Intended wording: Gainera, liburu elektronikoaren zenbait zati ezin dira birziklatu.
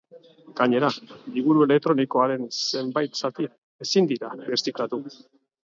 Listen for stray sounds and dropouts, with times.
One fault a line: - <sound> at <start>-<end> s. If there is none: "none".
none